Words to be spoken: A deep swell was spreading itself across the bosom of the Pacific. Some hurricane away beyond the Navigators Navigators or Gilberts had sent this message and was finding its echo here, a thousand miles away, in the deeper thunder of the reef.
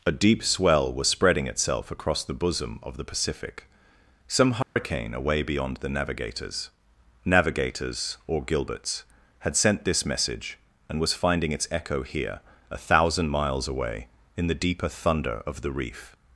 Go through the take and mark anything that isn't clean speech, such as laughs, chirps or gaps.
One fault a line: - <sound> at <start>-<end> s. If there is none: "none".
- dropout at 4.6-4.8 s